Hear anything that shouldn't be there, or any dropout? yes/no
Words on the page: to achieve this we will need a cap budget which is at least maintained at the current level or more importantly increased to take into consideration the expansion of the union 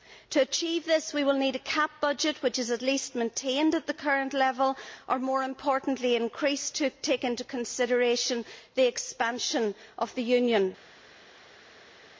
no